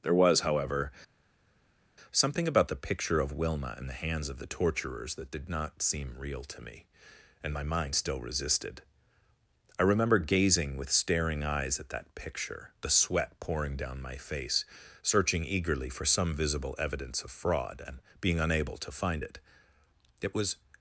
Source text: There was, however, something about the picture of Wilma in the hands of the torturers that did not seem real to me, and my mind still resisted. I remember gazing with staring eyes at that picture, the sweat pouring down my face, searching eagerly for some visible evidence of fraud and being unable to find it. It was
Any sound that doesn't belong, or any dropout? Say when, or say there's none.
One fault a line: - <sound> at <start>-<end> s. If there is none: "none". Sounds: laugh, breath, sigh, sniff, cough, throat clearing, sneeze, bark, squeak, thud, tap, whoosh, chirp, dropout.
none